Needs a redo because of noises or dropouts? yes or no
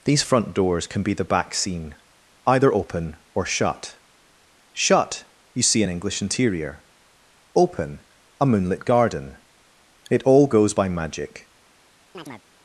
yes